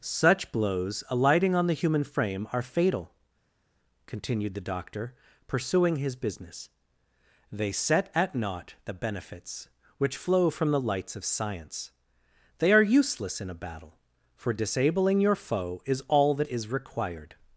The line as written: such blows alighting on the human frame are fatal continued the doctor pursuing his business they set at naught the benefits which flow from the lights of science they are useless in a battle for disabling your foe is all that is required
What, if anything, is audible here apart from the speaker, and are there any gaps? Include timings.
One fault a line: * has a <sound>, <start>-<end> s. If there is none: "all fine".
all fine